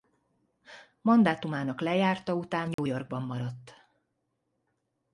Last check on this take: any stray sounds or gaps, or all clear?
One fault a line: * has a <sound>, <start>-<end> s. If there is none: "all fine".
* has a dropout, 2.7-2.8 s